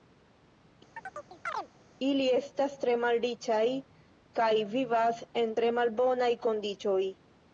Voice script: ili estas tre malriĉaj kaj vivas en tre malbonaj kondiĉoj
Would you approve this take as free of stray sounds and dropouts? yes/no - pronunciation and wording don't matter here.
no